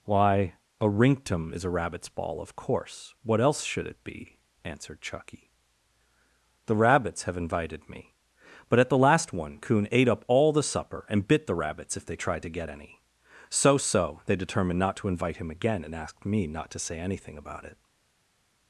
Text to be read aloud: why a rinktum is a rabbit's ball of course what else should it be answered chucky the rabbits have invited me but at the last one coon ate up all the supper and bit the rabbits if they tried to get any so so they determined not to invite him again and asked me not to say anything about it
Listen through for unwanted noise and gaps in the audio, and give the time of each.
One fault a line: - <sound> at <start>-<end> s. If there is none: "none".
none